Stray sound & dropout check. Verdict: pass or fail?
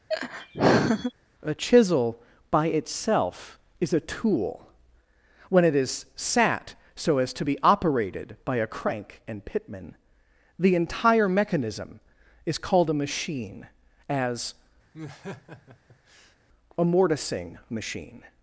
fail